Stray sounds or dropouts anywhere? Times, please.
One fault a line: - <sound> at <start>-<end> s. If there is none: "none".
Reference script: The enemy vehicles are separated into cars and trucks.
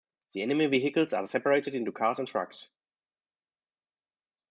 none